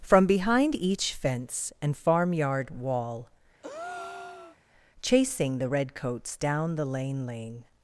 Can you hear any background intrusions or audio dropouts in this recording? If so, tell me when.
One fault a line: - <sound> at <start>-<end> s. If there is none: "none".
- breath at 3.6-4.6 s